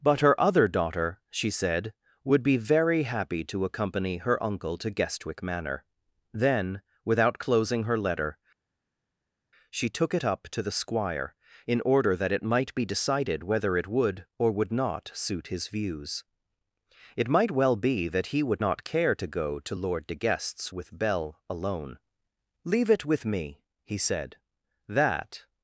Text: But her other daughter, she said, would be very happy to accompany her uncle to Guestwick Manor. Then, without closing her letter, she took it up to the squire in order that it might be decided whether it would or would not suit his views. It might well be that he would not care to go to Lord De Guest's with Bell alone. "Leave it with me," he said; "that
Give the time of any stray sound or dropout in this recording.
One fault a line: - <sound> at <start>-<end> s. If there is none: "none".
none